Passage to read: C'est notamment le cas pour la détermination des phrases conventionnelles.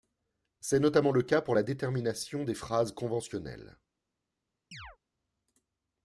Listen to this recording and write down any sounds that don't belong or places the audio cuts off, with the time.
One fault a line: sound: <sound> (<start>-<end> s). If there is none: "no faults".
sound: chirp (4.7-5.0 s)